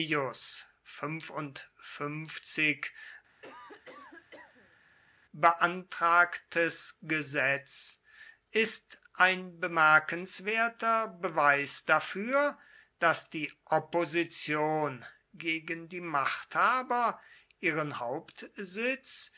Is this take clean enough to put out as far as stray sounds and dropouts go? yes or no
no